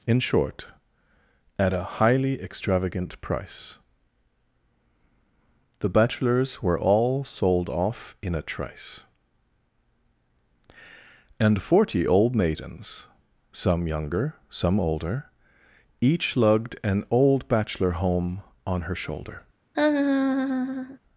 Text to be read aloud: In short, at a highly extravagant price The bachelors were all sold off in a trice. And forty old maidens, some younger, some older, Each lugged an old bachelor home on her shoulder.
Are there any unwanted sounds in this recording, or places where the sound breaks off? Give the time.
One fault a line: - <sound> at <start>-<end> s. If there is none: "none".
- laugh at 19.7-21.0 s